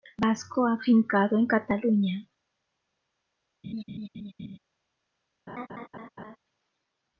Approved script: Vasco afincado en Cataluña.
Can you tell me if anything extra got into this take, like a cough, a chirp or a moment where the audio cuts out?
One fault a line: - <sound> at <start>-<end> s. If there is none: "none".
- laugh at 3.6-4.6 s
- laugh at 5.5-6.4 s